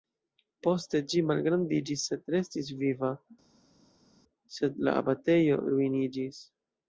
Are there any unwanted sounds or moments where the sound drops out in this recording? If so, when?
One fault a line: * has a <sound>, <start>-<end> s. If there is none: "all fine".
all fine